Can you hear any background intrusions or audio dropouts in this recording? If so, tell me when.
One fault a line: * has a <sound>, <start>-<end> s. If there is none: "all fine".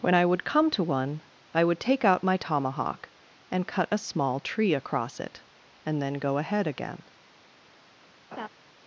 * has a laugh, 8.3-8.5 s